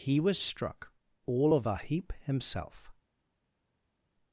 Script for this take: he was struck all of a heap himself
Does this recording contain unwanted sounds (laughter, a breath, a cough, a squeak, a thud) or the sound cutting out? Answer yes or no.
no